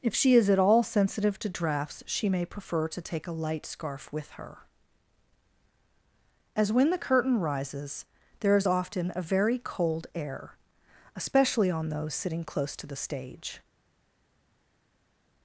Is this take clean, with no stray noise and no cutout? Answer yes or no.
yes